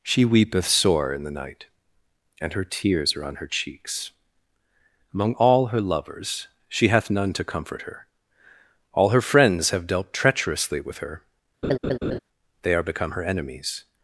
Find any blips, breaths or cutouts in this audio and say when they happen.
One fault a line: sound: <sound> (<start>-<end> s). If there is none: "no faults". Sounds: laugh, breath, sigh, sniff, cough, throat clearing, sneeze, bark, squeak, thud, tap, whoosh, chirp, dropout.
sound: laugh (11.6-12.2 s)